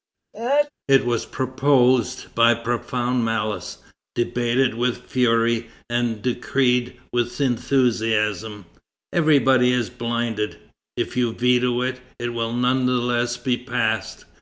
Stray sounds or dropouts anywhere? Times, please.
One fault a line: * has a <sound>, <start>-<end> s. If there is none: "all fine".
* has a sneeze, 0.3-0.7 s